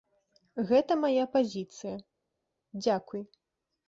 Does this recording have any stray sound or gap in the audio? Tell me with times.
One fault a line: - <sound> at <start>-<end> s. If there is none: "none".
none